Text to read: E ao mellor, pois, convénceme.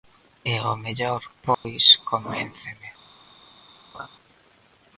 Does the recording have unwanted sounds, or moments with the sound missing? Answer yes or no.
yes